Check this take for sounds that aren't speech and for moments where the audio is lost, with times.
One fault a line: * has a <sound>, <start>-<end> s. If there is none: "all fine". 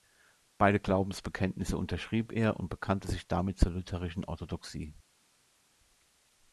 all fine